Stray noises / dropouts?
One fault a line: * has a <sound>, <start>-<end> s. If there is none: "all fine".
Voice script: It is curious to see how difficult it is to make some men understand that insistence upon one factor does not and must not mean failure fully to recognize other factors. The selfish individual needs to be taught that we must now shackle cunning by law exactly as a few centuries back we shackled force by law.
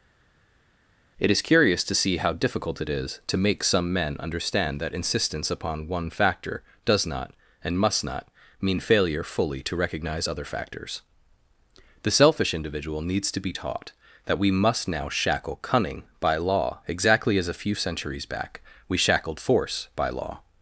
all fine